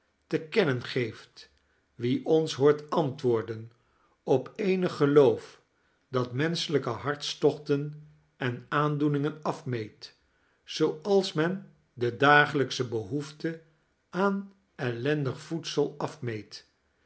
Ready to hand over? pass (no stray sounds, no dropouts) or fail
pass